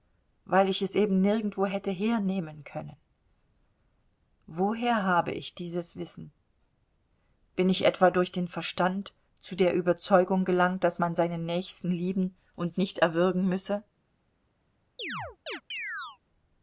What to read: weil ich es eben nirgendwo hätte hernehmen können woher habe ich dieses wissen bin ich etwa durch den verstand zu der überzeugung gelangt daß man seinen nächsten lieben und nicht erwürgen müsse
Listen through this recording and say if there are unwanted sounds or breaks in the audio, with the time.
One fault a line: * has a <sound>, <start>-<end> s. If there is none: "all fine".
* has a chirp, 15.0-16.2 s